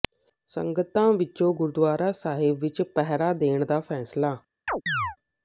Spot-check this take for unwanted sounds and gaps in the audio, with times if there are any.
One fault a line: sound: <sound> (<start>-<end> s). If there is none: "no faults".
sound: chirp (4.7-5.2 s)